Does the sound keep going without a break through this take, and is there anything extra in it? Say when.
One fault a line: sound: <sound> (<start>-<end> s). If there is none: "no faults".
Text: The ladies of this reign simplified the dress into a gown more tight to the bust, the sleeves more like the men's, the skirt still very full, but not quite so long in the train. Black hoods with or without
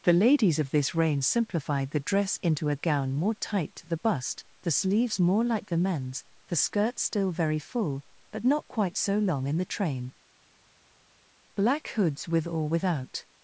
no faults